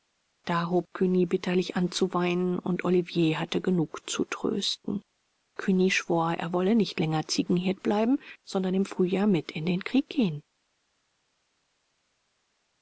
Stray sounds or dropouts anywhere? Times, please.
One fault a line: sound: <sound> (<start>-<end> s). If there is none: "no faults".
no faults